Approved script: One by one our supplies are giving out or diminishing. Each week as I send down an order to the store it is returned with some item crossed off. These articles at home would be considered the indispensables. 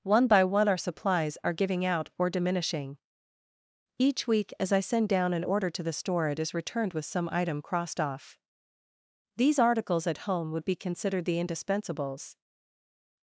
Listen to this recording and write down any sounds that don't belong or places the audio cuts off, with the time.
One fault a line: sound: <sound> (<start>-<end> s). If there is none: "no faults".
no faults